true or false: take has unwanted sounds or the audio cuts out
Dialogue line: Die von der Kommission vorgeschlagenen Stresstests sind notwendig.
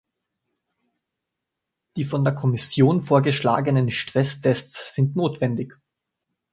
false